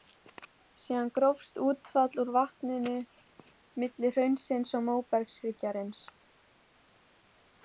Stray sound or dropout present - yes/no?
no